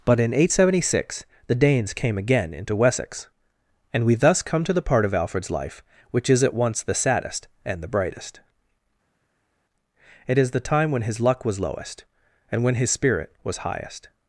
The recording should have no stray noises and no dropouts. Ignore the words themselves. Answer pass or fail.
pass